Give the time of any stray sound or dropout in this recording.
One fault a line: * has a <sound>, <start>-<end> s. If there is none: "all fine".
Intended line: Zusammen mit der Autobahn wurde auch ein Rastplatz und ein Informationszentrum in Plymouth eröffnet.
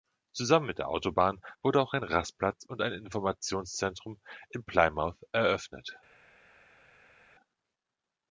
all fine